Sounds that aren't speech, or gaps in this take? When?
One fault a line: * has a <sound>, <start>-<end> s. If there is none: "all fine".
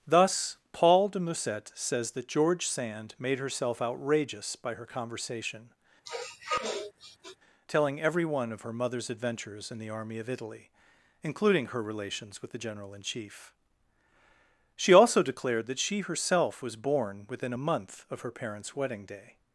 * has a sniff, 6.0-7.4 s